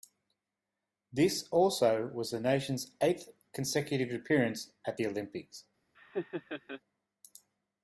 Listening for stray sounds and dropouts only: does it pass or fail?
fail